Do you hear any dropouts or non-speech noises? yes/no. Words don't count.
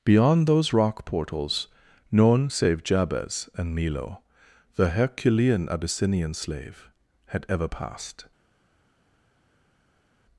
no